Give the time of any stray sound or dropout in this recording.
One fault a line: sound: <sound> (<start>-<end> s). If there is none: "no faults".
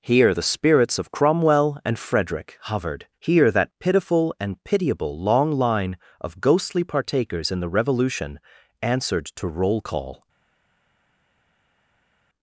no faults